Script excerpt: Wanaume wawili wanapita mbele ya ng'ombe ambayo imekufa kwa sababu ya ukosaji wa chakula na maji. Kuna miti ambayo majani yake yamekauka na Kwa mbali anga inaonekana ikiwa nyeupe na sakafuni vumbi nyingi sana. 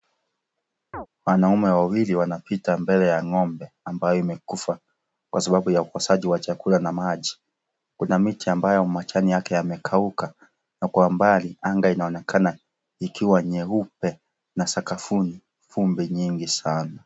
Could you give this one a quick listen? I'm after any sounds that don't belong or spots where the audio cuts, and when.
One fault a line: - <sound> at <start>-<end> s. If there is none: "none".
- chirp at 0.9-1.1 s